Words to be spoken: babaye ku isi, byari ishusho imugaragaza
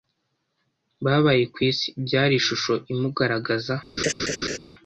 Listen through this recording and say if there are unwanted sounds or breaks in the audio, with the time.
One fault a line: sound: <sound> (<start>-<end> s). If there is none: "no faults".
sound: laugh (4.0-4.6 s)